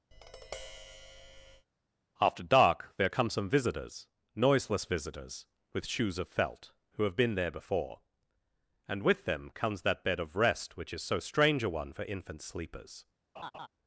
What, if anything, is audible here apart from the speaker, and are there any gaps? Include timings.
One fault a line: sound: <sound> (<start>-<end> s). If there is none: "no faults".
sound: tap (0.1-1.7 s)
sound: laugh (13.4-13.7 s)